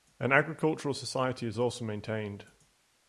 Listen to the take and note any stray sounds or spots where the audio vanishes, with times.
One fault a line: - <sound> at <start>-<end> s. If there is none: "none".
none